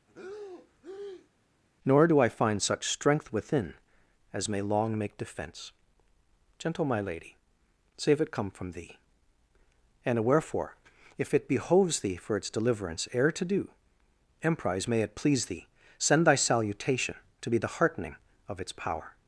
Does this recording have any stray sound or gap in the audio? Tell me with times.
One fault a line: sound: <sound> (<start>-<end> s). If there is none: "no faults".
sound: breath (0.1-1.3 s)